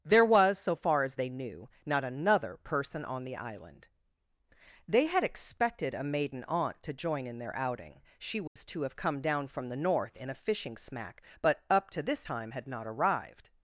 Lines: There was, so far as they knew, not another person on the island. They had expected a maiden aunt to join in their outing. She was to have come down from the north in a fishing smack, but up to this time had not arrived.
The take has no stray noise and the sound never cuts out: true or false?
false